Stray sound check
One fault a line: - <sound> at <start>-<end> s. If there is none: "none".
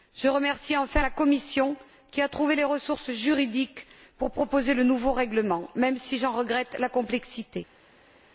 none